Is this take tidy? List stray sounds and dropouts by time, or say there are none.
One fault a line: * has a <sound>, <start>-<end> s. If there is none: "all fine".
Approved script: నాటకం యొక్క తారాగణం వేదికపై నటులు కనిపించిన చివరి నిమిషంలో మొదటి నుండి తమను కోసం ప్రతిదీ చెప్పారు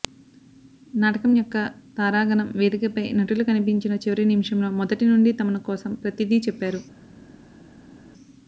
all fine